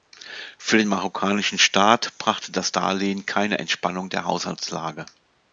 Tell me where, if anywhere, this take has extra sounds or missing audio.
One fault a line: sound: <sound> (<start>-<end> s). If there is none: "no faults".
no faults